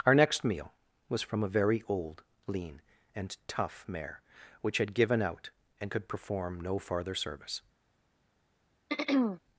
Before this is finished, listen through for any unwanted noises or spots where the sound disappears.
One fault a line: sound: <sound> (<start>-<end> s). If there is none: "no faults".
sound: throat clearing (8.9-9.4 s)